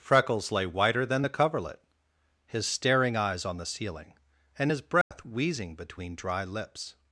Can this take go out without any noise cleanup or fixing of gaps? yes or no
no